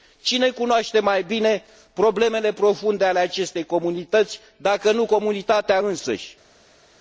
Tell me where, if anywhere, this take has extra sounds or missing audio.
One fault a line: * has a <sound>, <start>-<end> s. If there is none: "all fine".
all fine